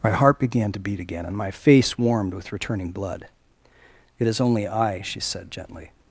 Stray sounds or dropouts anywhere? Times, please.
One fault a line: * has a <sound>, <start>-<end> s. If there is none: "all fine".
all fine